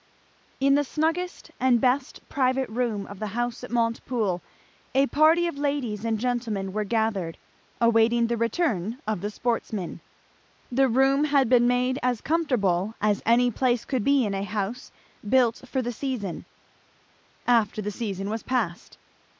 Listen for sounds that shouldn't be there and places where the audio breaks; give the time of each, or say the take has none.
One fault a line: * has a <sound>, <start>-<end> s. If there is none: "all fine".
all fine